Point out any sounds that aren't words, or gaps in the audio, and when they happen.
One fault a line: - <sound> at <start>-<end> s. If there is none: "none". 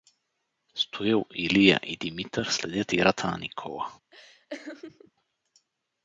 - laugh at 4.1-5.1 s